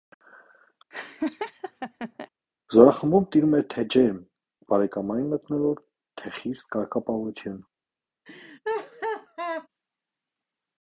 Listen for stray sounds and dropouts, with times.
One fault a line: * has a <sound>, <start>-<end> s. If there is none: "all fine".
* has a laugh, 0.9-2.3 s
* has a laugh, 8.2-9.7 s